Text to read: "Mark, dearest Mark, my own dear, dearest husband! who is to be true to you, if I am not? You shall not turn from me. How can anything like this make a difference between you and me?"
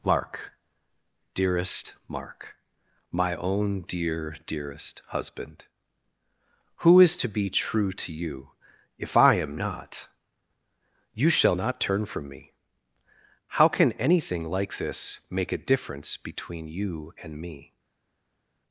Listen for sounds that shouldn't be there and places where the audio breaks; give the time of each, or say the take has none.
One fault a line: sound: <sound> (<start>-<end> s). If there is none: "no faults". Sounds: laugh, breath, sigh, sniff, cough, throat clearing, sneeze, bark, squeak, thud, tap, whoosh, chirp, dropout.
no faults